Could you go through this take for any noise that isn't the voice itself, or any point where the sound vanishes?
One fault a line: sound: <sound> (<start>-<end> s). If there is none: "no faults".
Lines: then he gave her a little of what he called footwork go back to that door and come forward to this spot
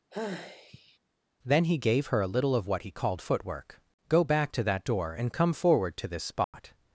sound: sigh (0.1-1.0 s)
sound: dropout (6.4-6.5 s)